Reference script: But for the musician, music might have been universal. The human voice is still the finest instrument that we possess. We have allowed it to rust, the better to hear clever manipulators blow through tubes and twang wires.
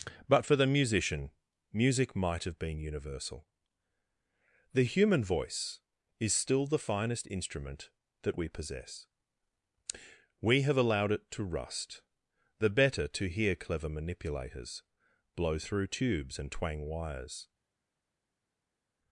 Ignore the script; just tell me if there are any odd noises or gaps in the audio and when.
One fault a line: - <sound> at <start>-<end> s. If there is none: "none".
none